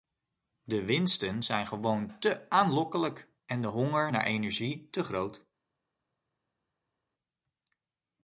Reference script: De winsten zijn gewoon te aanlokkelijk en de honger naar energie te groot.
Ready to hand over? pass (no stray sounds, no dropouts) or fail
pass